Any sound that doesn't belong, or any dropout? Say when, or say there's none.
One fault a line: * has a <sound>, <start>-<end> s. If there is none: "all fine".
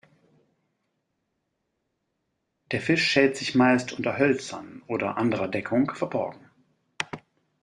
all fine